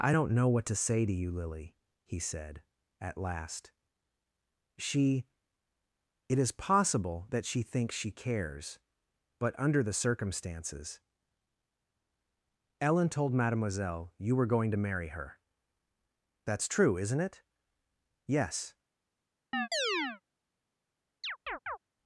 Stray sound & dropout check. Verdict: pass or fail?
fail